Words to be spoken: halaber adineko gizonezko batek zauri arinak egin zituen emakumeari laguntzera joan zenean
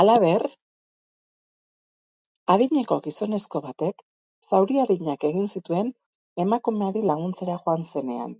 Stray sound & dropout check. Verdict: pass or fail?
pass